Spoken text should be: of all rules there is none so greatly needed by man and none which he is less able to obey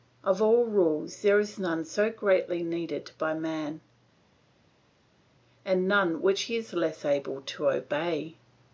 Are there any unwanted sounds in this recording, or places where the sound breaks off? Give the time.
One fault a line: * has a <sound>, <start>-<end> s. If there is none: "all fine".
all fine